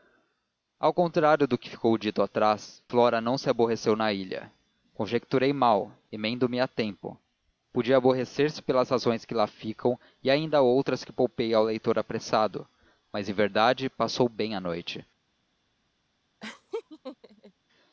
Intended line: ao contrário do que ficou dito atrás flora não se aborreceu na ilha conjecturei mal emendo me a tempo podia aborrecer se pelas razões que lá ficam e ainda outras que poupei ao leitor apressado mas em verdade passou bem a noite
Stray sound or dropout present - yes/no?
yes